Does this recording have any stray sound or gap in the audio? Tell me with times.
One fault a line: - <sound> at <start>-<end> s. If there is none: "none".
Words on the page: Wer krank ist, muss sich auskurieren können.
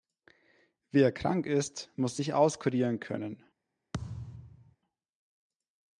- thud at 3.9-4.8 s